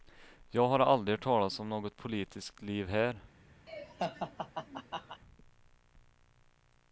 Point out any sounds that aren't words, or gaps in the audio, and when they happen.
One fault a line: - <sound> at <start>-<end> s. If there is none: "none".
- laugh at 3.7-5.2 s